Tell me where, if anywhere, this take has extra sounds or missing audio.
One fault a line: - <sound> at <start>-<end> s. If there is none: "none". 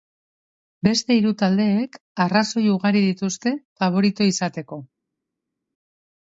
none